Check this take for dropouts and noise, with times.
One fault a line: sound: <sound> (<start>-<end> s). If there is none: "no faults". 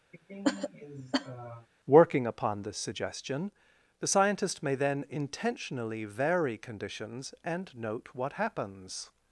sound: cough (0.1-1.7 s)